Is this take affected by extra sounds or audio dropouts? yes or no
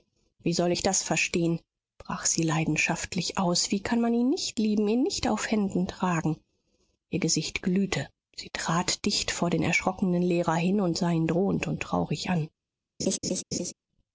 yes